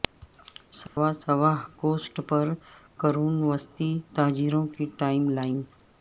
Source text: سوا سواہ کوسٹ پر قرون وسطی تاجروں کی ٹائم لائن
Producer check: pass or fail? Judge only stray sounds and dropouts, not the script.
fail